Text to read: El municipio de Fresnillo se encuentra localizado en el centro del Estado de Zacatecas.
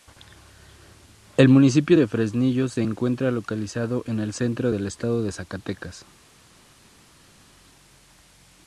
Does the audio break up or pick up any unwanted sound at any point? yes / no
no